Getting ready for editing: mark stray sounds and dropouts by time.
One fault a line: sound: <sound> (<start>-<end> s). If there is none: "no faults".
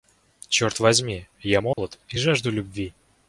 sound: dropout (1.7-1.8 s)